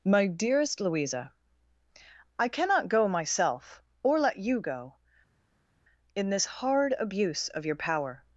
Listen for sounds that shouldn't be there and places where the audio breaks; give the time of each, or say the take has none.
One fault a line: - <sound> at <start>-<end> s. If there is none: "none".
none